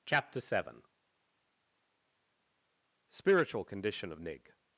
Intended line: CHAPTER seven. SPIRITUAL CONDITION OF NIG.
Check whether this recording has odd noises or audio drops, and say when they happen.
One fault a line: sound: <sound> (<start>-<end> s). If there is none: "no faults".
no faults